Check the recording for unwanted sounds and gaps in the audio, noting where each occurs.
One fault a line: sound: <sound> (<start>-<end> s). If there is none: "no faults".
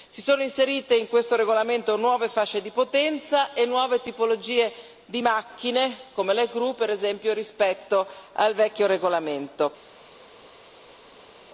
no faults